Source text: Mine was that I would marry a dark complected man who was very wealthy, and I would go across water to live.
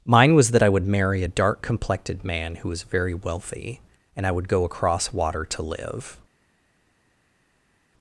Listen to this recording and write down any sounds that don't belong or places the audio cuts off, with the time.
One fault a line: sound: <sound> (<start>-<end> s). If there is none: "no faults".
no faults